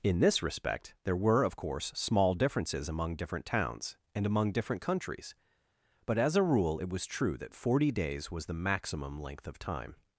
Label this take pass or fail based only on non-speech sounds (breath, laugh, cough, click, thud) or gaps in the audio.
pass